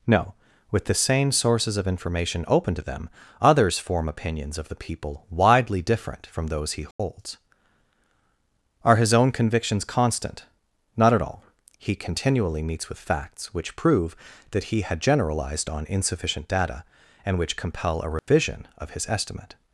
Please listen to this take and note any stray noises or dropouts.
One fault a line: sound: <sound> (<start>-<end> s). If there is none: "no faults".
sound: dropout (6.9-7.0 s)
sound: dropout (18.2-18.3 s)